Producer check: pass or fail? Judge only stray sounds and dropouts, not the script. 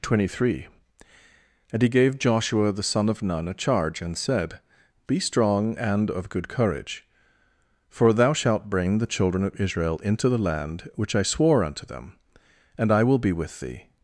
pass